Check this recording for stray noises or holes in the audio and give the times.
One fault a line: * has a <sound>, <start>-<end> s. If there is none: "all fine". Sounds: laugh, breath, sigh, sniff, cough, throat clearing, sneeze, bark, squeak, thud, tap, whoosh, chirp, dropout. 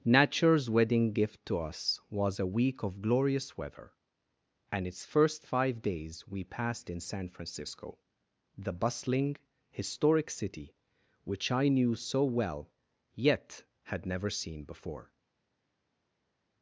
all fine